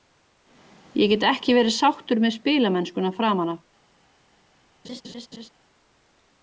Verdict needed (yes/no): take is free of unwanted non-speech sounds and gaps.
no